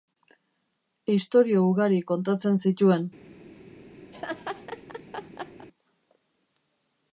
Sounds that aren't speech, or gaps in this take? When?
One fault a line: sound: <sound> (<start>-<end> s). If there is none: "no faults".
sound: laugh (4.1-5.7 s)